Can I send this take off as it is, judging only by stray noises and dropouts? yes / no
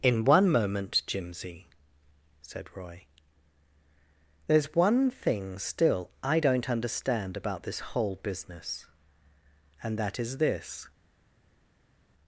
yes